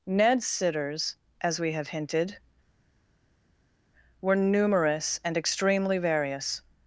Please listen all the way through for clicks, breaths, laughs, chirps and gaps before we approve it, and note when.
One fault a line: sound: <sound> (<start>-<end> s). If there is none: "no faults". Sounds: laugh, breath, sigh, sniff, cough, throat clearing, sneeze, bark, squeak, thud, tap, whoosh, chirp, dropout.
no faults